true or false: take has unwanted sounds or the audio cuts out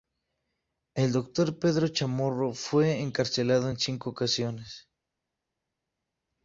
false